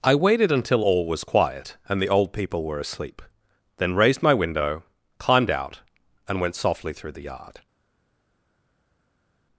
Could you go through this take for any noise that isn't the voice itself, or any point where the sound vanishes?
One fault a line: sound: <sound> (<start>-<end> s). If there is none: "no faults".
no faults